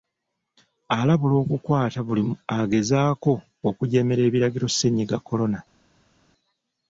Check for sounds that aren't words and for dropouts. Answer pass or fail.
pass